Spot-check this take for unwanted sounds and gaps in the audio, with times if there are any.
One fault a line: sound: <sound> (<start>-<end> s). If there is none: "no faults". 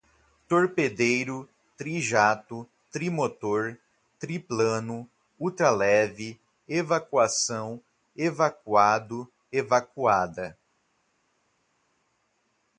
no faults